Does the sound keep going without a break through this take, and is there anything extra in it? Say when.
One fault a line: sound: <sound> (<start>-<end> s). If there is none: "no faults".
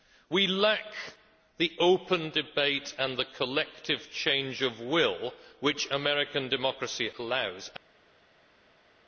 no faults